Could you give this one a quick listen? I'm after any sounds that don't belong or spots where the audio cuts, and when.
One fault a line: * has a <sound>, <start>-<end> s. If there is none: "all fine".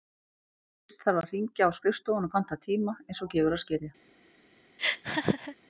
* has a laugh, 4.8-5.6 s